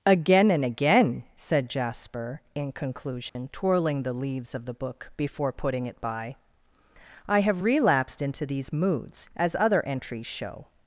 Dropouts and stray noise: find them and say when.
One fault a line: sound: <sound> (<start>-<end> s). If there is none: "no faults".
sound: dropout (3.3-3.4 s)